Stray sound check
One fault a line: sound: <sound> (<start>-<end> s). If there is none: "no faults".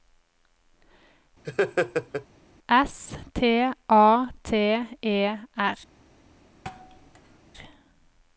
sound: laugh (1.4-2.3 s)
sound: thud (6.6-7.4 s)